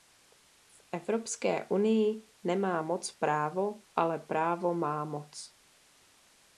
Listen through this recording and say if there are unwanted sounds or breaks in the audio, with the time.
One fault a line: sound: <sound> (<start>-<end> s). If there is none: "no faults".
no faults